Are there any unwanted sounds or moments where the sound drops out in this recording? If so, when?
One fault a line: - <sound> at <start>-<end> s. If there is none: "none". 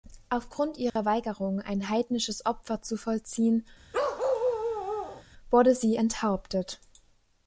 - dropout at 0.9-1.0 s
- bark at 3.9-5.2 s